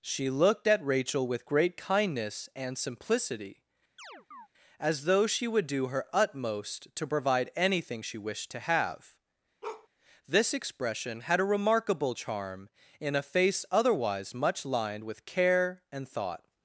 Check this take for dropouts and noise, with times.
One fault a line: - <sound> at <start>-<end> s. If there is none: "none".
- chirp at 4.0-4.5 s
- bark at 9.6-9.9 s